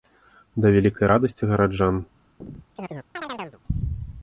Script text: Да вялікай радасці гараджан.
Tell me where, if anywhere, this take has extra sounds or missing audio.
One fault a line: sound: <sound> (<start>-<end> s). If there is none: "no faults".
sound: chirp (2.4-3.6 s)